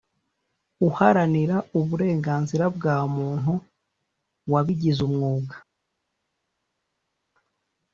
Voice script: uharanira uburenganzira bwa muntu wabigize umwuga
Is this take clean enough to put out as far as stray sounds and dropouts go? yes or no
yes